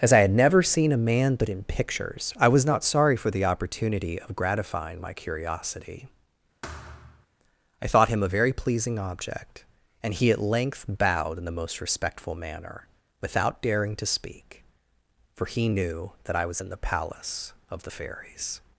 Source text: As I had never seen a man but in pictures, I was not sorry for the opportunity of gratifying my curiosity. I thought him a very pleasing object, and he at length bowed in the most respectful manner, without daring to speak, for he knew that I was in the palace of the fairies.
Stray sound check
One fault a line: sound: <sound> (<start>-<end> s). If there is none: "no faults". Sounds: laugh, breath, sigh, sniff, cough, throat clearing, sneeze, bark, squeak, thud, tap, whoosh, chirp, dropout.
sound: thud (6.6-7.3 s)